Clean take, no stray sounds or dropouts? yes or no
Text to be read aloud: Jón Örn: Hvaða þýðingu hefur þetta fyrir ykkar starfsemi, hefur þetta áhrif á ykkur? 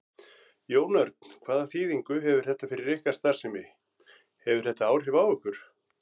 yes